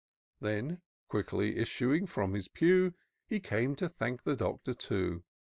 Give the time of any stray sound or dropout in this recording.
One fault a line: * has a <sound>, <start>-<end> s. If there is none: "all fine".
all fine